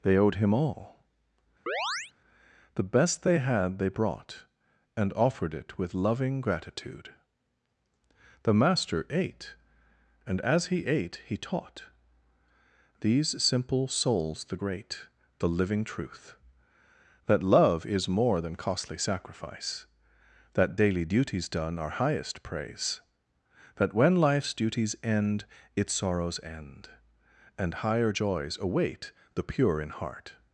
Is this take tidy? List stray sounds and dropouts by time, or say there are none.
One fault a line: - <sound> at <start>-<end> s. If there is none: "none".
- chirp at 1.7-2.1 s